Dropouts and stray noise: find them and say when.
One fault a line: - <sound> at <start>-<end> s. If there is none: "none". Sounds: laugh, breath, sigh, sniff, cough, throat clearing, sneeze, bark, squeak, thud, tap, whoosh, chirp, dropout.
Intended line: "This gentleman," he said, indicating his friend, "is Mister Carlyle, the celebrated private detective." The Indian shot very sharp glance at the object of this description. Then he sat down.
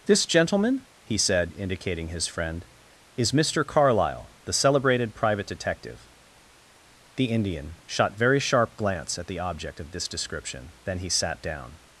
none